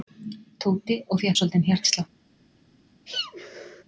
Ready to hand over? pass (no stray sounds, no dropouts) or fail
fail